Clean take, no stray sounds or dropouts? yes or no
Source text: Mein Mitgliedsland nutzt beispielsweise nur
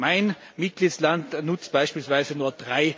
yes